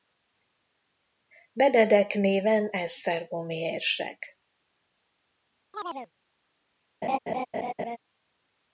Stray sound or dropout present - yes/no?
yes